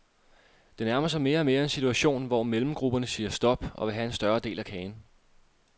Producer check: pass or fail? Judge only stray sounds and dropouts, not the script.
pass